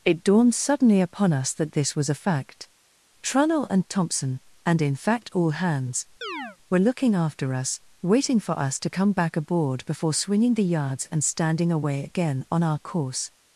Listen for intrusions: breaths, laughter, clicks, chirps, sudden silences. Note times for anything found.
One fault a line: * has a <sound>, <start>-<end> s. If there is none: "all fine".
* has a chirp, 6.2-6.6 s